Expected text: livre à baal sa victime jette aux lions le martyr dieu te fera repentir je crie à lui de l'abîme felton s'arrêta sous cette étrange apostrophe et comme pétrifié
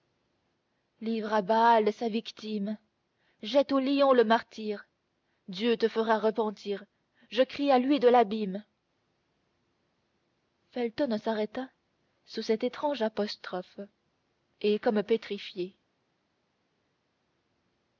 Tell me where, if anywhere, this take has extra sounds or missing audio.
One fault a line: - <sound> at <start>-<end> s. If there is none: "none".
none